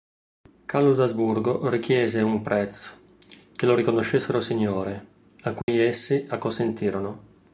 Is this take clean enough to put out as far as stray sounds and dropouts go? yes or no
no